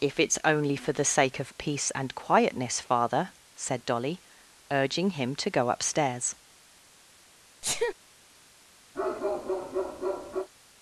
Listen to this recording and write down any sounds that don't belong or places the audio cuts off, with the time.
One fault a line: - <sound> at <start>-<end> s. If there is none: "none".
- sneeze at 7.6-7.9 s
- bark at 8.9-10.5 s